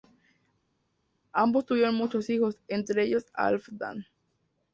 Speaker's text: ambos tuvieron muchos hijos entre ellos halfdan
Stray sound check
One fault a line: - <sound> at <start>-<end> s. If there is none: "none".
none